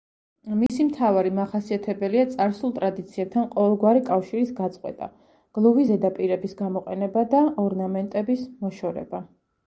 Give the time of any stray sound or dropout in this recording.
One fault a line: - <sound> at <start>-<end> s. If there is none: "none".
- dropout at 0.7-0.7 s